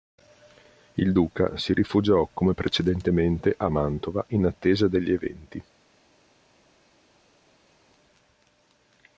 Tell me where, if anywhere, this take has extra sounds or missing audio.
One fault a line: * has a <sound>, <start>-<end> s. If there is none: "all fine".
all fine